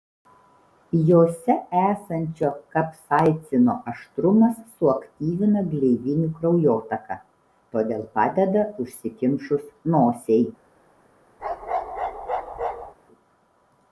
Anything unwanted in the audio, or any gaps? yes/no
yes